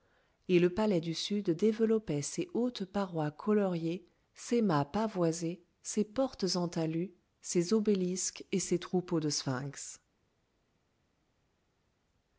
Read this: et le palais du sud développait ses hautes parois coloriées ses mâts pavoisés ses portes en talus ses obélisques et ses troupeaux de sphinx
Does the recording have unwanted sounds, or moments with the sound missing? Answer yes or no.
no